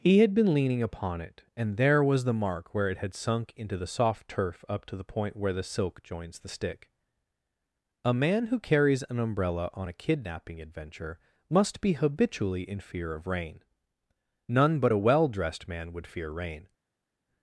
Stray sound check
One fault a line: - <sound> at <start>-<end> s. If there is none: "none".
none